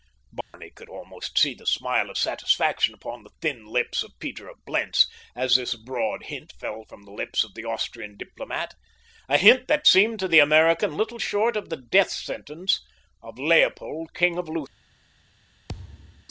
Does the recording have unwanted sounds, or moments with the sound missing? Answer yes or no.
yes